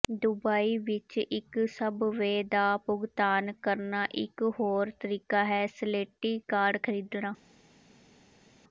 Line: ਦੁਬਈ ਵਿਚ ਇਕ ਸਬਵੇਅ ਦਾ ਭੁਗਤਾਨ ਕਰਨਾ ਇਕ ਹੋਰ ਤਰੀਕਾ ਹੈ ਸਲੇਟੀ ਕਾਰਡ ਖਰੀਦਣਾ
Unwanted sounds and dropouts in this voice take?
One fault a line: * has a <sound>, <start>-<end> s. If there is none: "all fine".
all fine